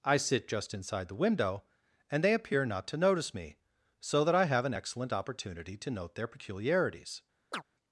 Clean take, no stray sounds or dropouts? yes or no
no